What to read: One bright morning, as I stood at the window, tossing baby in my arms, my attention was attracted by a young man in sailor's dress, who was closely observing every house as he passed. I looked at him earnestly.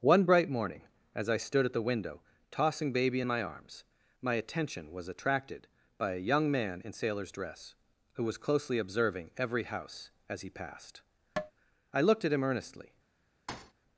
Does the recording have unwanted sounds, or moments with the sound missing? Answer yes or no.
yes